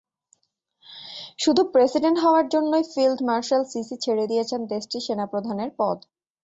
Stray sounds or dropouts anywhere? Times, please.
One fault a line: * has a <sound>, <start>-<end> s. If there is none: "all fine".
all fine